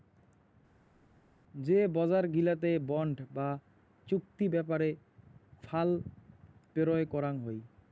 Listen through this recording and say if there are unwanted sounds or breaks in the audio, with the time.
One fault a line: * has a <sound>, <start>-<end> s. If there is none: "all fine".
all fine